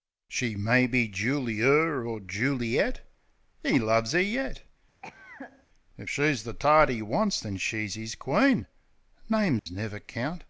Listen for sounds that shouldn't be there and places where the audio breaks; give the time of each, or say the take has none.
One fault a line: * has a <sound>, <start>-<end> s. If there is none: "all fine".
* has a cough, 5.0-5.7 s
* has a dropout, 9.6-9.7 s